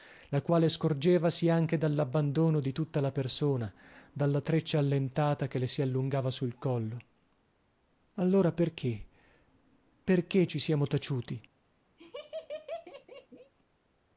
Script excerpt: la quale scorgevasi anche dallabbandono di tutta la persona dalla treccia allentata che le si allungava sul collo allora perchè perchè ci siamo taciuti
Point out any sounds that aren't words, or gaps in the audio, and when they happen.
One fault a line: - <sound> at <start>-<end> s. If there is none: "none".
- laugh at 12.0-13.5 s